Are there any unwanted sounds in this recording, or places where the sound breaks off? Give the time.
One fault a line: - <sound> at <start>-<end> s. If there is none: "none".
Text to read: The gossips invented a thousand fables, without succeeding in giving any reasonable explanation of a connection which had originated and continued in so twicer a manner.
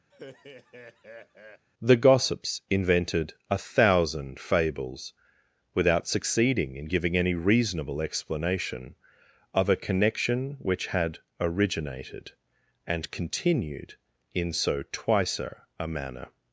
- laugh at 0.1-1.6 s